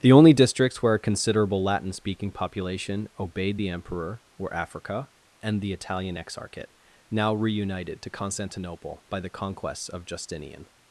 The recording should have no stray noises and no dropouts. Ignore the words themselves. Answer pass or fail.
pass